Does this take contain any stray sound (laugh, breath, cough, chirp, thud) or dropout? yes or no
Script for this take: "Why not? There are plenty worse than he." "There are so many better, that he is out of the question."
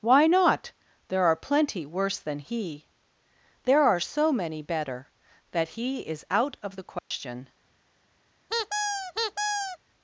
yes